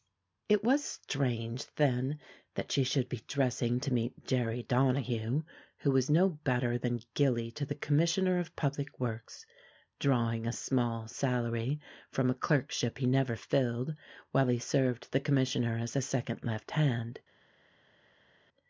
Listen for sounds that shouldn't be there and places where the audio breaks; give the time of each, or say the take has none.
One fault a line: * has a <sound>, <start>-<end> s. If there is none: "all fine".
all fine